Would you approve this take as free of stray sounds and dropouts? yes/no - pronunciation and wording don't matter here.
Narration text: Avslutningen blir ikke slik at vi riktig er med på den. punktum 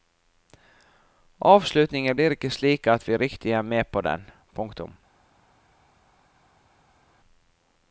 yes